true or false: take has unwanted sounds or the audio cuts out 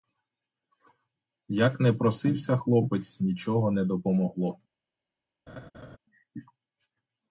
true